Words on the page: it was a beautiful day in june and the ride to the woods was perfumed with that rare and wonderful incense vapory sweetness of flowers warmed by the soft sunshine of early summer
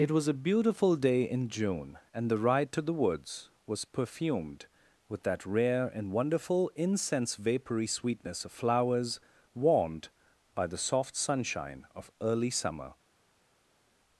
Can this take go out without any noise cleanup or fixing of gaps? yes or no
yes